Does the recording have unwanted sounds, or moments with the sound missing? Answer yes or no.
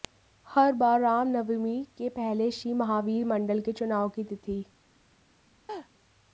yes